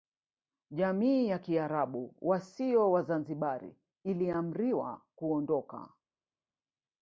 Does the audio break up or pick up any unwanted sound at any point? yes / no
no